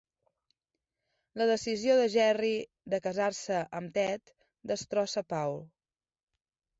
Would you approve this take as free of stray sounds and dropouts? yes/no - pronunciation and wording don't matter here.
yes